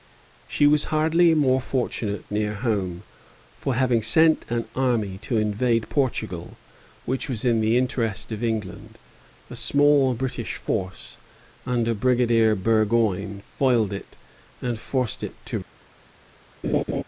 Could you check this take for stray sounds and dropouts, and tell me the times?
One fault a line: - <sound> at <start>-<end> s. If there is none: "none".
- laugh at 16.6-17.0 s